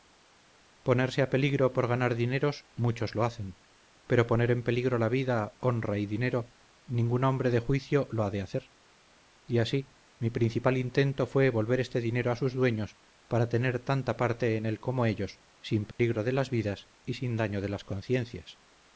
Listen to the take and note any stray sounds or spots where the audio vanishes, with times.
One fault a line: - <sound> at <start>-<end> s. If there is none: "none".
- dropout at 15.9-16.0 s